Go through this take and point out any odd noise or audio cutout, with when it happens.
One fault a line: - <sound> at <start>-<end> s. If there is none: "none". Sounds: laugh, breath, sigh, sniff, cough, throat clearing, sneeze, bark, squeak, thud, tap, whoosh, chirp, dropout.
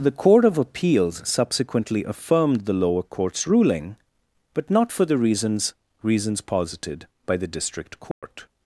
- dropout at 8.1-8.2 s